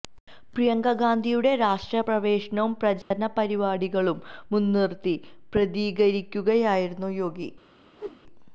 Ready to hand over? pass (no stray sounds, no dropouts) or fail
fail